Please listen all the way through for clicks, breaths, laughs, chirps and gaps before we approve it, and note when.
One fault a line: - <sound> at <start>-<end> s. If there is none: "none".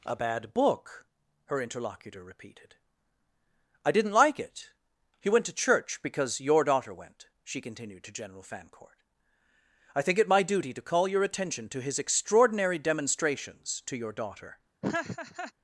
- laugh at 14.8-15.5 s